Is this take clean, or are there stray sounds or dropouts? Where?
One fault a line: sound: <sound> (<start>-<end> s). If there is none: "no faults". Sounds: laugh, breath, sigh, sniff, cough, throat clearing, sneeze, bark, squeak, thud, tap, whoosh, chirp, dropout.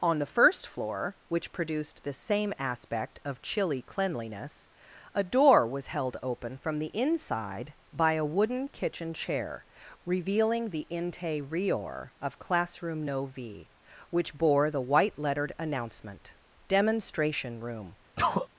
sound: sneeze (18.2-18.5 s)